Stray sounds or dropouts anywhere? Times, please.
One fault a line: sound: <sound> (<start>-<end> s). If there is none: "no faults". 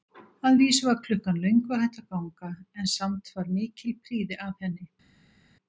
no faults